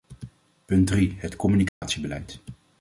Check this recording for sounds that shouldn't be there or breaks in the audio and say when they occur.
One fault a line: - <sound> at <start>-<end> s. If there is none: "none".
- dropout at 1.7-1.8 s